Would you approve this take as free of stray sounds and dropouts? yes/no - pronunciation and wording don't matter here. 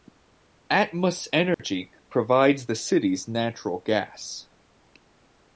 no